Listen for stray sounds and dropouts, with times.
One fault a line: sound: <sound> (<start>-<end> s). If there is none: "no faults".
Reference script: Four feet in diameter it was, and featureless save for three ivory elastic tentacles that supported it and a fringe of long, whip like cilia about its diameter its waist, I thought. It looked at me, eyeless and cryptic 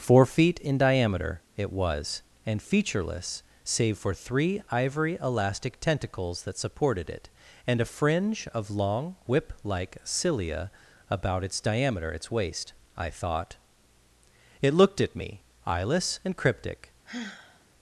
sound: sigh (17.1-17.7 s)